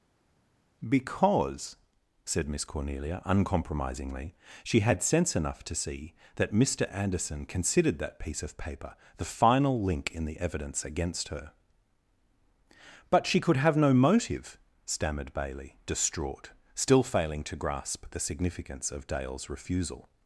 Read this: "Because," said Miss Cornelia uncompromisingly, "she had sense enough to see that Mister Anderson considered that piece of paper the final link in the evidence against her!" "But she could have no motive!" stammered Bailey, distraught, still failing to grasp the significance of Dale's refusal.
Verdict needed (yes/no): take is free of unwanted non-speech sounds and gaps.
yes